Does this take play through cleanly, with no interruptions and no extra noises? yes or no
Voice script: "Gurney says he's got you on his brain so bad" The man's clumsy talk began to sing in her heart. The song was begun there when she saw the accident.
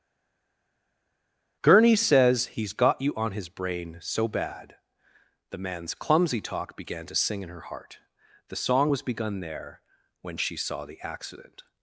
yes